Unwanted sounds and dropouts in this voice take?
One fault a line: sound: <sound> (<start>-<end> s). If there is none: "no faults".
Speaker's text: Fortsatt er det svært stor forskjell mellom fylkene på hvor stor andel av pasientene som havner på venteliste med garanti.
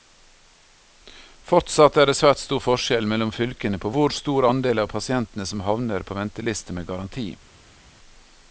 no faults